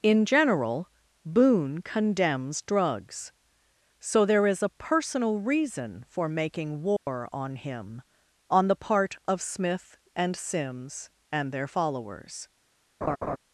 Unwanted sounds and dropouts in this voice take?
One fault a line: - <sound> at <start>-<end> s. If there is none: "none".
- dropout at 7.0-7.1 s
- laugh at 13.0-13.4 s